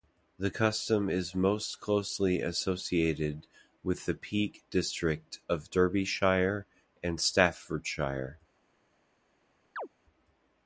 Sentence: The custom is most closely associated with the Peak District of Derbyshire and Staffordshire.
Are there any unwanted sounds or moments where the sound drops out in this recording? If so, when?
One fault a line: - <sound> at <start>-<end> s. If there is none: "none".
- chirp at 9.8-9.9 s